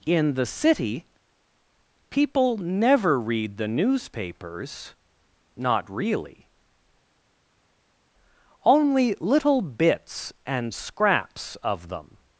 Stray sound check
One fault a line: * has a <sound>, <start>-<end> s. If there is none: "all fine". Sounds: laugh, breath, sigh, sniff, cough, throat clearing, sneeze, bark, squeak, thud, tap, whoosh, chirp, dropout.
all fine